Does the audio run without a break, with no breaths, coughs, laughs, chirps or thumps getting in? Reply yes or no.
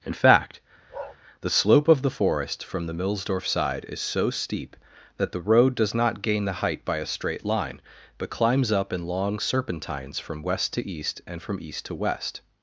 no